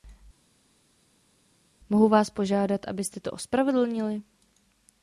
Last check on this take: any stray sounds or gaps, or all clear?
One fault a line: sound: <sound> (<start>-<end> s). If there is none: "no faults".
no faults